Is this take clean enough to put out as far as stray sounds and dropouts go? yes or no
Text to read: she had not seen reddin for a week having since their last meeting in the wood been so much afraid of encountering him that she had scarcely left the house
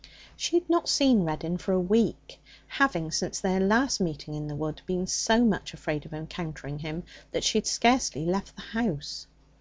yes